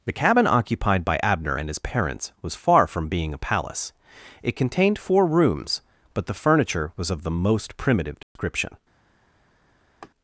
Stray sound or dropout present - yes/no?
yes